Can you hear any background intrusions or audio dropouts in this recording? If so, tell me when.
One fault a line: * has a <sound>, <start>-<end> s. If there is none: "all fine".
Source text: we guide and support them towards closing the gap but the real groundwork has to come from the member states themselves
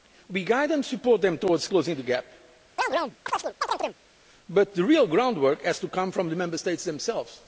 * has a chirp, 2.8-4.0 s